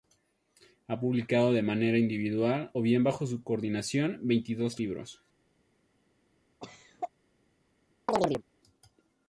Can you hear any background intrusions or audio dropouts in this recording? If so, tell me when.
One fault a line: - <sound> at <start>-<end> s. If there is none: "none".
- cough at 6.6-7.1 s
- chirp at 8.1-8.4 s